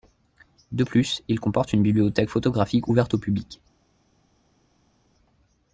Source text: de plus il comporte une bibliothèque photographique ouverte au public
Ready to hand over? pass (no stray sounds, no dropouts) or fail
pass